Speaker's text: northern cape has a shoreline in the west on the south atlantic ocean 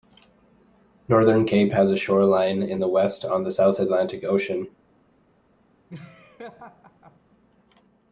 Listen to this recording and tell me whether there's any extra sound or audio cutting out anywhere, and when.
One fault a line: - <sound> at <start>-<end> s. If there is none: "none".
- laugh at 5.9-7.2 s